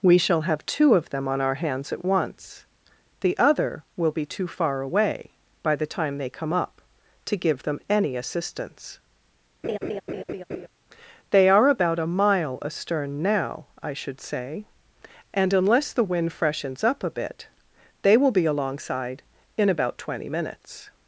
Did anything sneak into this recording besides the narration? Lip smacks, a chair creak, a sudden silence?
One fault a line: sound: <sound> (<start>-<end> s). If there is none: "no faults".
sound: laugh (9.6-10.7 s)